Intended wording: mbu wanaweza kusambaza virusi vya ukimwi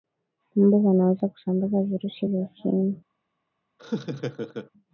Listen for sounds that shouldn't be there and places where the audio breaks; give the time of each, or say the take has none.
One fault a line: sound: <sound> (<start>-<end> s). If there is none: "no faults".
sound: laugh (3.8-4.7 s)